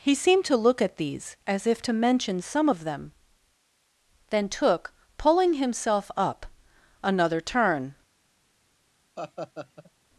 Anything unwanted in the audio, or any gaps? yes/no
yes